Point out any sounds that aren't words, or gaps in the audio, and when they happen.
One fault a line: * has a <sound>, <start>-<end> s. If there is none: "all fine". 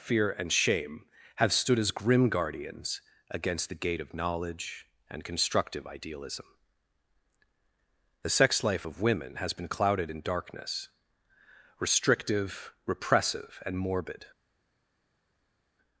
all fine